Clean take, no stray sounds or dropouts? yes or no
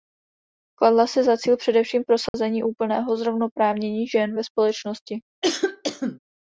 no